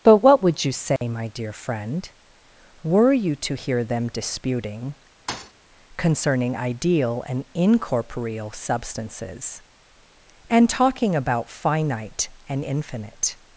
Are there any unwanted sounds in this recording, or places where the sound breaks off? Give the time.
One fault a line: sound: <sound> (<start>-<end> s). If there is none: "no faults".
sound: dropout (1.0-1.0 s)
sound: thud (5.3-5.5 s)